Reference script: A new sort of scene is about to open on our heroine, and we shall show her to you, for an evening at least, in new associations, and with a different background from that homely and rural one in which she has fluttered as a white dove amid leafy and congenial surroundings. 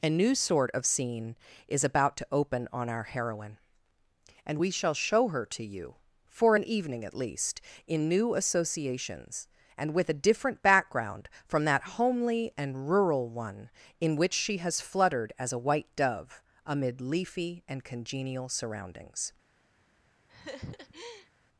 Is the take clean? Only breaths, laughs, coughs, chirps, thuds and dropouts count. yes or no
no